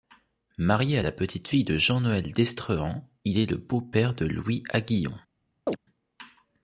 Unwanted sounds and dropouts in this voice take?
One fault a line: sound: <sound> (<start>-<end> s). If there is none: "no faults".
sound: chirp (5.7-5.8 s)